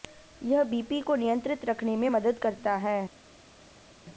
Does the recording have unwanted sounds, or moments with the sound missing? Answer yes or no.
no